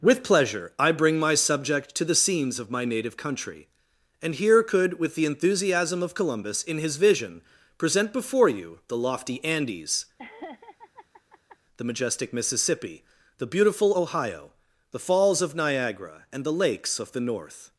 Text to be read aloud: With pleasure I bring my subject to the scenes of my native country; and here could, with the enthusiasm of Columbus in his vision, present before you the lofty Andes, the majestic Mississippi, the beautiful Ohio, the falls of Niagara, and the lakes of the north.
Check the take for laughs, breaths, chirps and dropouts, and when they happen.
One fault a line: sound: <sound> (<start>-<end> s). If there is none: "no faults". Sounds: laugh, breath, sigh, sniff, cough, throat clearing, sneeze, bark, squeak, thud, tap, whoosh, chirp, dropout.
sound: laugh (10.2-11.6 s)